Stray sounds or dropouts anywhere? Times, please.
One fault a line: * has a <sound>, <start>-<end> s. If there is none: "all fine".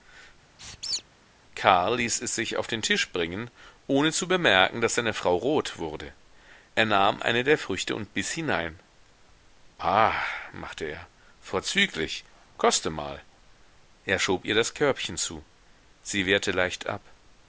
* has a squeak, 0.6-1.0 s